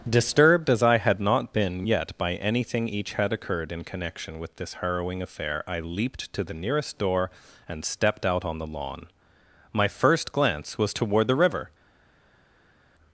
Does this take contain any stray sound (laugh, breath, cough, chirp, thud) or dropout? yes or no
no